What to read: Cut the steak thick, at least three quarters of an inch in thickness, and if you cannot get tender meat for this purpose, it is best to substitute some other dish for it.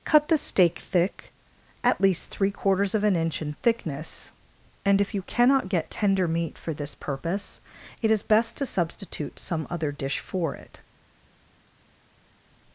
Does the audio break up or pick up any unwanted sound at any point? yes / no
no